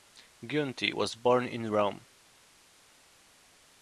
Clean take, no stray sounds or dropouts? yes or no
yes